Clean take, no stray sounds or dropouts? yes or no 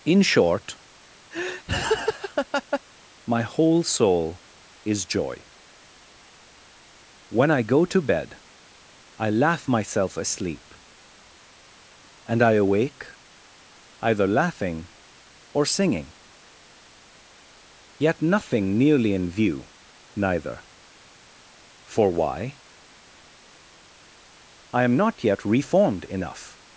no